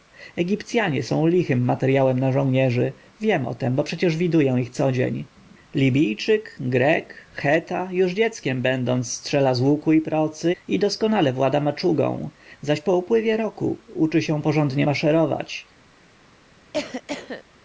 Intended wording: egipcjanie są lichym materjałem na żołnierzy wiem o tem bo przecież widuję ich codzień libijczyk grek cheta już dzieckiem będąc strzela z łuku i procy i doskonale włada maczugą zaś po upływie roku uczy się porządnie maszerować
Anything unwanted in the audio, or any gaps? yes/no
yes